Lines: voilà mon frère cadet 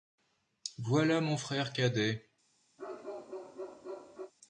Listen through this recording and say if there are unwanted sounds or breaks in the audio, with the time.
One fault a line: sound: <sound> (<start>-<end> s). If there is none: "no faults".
sound: bark (2.8-4.3 s)